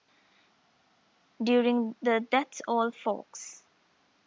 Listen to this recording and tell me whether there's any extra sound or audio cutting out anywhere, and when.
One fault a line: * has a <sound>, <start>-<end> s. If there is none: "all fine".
all fine